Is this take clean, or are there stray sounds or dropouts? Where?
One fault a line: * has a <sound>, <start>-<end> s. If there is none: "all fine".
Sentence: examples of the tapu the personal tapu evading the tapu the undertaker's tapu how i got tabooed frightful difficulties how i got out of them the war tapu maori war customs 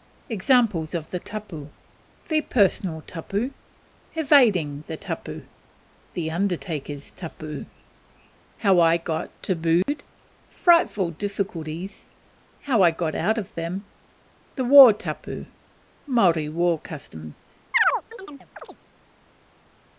* has a dropout, 9.8-9.9 s
* has a chirp, 17.7-18.8 s